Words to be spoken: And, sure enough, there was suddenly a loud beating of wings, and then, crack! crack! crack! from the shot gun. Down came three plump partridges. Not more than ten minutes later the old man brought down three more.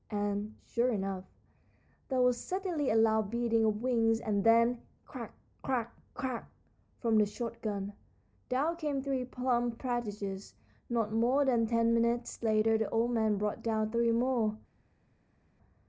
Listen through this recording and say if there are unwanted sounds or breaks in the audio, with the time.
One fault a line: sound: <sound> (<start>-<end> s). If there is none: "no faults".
no faults